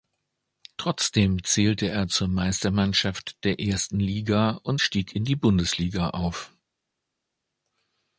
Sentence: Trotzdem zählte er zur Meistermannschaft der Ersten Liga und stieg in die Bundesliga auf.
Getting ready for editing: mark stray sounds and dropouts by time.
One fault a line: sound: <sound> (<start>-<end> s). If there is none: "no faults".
no faults